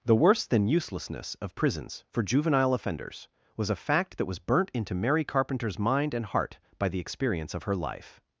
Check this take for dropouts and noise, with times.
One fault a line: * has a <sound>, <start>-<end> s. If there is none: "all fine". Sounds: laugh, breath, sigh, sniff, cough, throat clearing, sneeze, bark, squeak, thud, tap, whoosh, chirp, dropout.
all fine